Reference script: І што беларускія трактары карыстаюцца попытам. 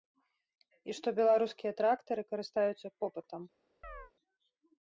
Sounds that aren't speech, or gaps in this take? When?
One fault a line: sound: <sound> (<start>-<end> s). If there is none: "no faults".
sound: chirp (3.8-4.1 s)